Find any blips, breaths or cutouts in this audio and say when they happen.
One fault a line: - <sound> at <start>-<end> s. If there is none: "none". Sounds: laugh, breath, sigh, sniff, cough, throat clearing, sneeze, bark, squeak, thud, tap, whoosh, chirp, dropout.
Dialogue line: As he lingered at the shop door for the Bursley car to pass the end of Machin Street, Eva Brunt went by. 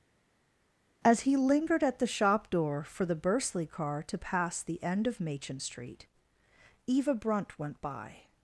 none